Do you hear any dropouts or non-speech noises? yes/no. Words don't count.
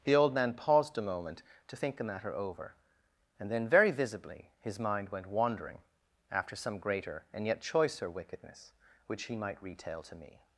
no